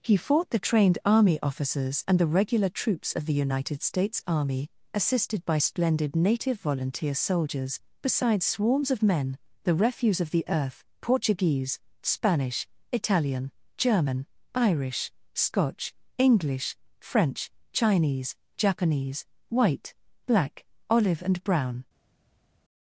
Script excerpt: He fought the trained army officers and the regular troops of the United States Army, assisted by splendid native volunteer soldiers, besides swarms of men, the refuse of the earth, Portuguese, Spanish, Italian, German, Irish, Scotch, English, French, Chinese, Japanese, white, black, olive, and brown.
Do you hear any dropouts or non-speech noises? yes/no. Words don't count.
no